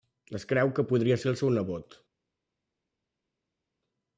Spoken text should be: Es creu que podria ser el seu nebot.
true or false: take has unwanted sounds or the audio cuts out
false